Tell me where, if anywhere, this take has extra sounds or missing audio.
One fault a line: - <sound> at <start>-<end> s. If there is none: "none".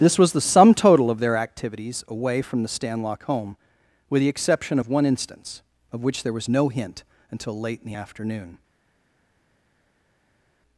none